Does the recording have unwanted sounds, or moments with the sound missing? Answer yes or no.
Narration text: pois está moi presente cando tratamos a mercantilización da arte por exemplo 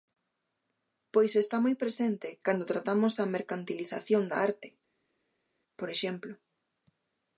no